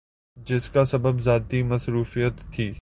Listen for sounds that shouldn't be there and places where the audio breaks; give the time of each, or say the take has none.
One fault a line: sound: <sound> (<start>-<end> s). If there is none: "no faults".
no faults